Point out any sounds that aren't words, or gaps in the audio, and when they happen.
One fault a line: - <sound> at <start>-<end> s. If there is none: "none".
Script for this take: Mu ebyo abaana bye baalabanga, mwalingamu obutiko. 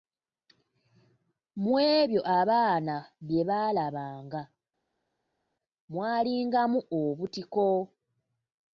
none